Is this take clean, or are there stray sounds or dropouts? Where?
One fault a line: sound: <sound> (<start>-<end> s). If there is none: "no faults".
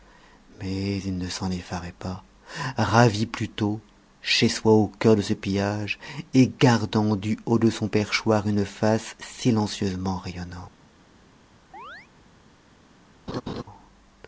sound: chirp (11.7-12.1 s)
sound: laugh (13.3-13.6 s)